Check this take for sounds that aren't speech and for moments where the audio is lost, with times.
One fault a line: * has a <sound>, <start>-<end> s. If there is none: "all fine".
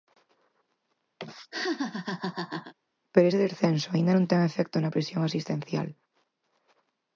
* has a laugh, 1.2-2.7 s